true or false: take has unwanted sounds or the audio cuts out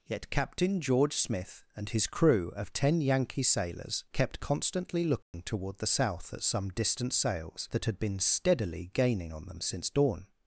true